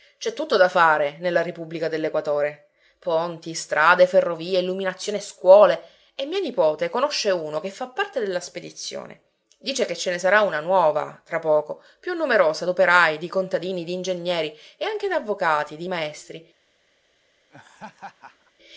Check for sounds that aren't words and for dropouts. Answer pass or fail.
fail